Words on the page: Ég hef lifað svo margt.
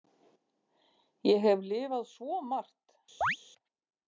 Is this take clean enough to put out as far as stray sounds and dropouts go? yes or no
no